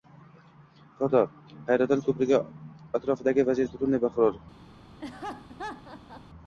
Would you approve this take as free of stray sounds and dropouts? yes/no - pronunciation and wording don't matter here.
no